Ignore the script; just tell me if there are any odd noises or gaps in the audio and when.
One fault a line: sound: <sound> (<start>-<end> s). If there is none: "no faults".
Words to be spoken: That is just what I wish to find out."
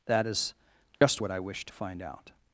sound: dropout (0.9-1.0 s)